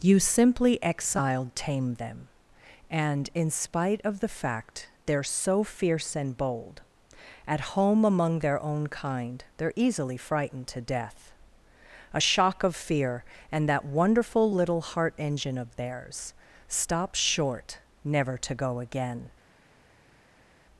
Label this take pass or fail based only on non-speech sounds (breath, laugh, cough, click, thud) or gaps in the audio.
pass